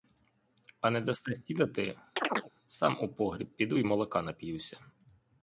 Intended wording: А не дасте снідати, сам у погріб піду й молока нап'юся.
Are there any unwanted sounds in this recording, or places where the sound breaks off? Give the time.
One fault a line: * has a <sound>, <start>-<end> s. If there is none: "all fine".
* has a chirp, 2.2-2.5 s